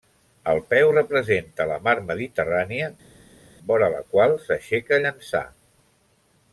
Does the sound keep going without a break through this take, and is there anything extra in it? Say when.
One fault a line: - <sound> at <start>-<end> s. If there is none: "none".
none